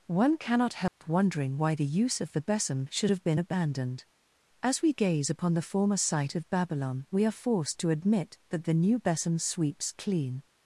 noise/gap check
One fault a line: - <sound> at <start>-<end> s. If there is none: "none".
- dropout at 0.9-1.0 s